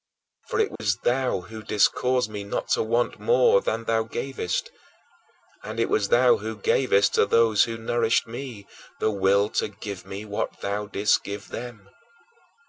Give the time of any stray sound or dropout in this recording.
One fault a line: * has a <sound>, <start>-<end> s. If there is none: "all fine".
* has a dropout, 0.8-0.8 s